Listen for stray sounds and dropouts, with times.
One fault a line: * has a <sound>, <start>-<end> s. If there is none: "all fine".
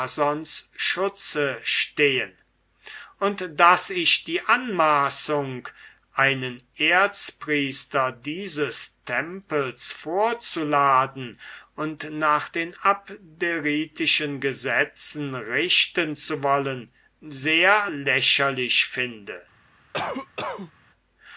* has a cough, 19.9-20.7 s